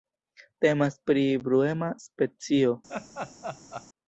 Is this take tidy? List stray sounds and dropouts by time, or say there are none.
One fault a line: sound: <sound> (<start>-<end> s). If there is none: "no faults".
sound: laugh (2.9-3.9 s)